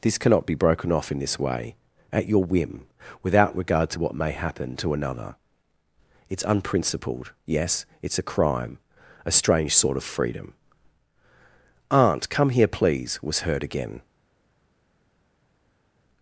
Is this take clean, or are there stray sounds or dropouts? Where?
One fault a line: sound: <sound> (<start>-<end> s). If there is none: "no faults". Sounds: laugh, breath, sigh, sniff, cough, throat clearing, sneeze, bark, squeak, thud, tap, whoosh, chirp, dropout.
no faults